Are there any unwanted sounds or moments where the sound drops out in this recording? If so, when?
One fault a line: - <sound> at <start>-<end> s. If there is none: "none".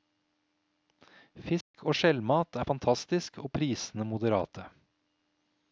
- dropout at 1.6-1.7 s